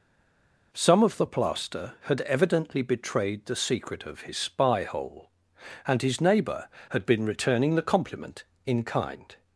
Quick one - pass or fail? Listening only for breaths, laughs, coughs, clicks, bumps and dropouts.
pass